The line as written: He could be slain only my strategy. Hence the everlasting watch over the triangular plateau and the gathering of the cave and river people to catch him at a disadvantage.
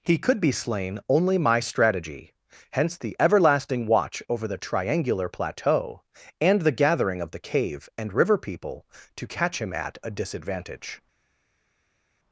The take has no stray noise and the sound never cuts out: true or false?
true